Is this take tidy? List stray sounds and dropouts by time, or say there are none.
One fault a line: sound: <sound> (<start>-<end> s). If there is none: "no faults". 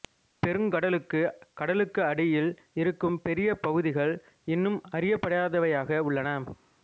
no faults